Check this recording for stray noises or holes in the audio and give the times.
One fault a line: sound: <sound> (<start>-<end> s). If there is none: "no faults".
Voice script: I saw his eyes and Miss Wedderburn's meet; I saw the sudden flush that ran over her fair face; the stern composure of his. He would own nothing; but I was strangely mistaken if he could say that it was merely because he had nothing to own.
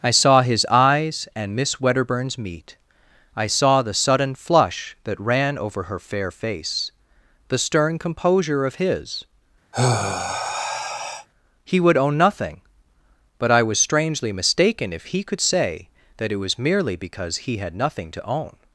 sound: sigh (9.7-11.3 s)